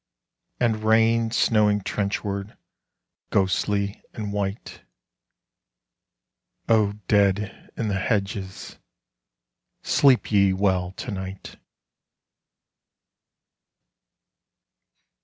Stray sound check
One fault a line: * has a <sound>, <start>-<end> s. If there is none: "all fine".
all fine